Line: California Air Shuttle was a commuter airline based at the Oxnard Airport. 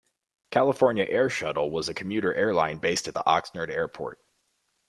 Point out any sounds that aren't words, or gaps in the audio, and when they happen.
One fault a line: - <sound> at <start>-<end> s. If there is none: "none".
none